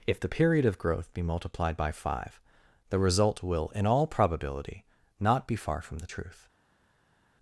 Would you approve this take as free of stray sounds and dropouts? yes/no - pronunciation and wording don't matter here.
yes